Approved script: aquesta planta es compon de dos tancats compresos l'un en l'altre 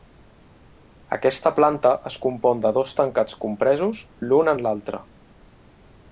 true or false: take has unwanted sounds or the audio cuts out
false